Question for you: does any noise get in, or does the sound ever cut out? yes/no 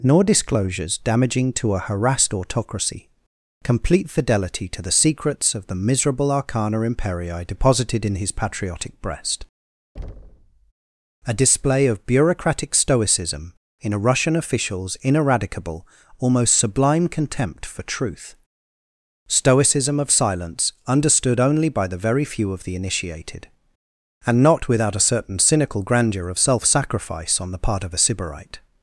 yes